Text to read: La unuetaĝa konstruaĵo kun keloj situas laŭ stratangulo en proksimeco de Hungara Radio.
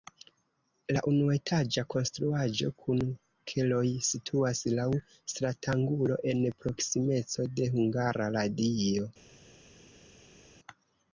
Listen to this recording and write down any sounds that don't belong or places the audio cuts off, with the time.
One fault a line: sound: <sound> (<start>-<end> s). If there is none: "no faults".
no faults